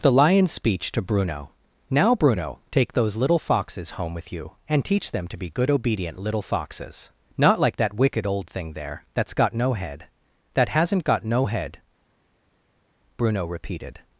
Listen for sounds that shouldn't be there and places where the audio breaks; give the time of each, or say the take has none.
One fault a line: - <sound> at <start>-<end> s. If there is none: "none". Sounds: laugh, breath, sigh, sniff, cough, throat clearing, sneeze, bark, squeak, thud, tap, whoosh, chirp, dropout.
none